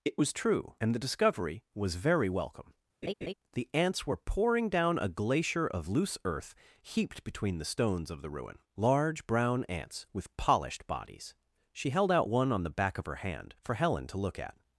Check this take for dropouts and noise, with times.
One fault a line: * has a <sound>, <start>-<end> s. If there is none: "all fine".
* has a laugh, 3.0-3.3 s